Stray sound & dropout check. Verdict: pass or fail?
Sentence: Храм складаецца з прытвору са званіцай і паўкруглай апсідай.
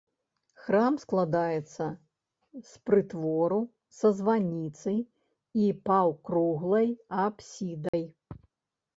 fail